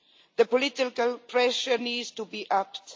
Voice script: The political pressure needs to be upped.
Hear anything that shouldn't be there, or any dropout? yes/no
no